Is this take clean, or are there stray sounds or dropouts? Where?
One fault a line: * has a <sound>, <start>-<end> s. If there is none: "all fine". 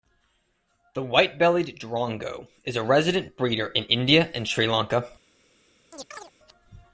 * has a chirp, 5.9-6.3 s